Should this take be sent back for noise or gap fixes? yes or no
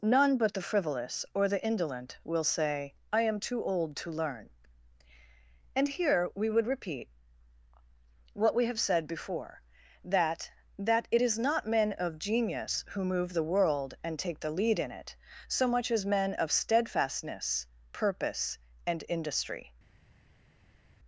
no